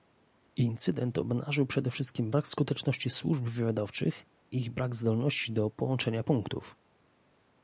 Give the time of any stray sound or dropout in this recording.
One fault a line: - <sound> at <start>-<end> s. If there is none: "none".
none